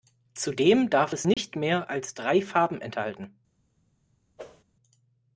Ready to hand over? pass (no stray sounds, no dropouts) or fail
fail